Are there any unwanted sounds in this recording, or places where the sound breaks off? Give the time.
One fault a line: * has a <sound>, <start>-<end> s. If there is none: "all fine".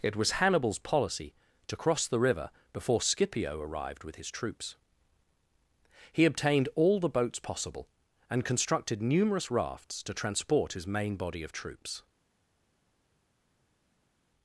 all fine